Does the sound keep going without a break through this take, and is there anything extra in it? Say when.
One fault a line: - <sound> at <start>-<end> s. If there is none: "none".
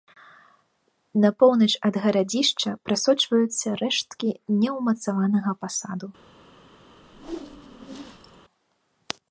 - whoosh at 7.0-8.4 s